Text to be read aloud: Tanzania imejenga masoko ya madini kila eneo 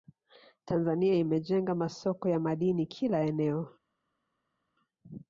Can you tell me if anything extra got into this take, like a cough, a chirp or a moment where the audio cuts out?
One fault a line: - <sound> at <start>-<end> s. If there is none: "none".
none